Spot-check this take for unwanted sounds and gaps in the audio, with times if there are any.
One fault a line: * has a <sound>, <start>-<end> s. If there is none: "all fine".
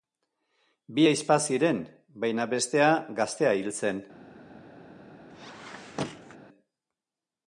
* has a squeak, 5.3-6.4 s